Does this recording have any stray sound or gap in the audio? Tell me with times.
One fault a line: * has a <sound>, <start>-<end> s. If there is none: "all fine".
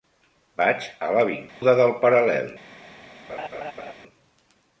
* has a dropout, 1.5-1.6 s
* has a laugh, 3.3-3.9 s